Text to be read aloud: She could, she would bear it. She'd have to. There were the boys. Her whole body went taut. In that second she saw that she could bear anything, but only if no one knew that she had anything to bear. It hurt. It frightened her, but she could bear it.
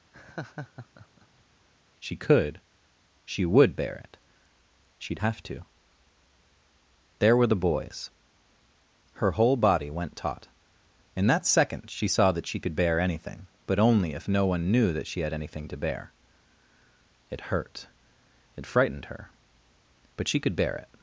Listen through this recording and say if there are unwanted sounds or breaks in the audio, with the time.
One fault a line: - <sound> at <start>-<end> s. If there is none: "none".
- laugh at 0.1-1.4 s